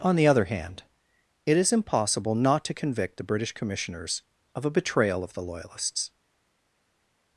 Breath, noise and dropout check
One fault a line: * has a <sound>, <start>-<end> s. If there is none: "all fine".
all fine